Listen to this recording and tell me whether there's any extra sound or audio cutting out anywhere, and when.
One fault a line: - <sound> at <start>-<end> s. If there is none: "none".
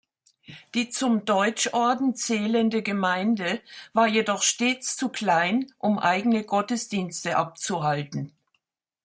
none